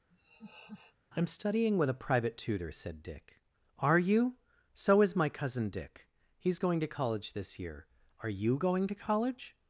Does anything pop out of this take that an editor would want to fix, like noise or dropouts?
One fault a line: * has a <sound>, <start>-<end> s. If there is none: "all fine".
* has a laugh, 0.1-1.0 s